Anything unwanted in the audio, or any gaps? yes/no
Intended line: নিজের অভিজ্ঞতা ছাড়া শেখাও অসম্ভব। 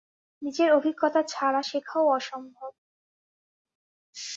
no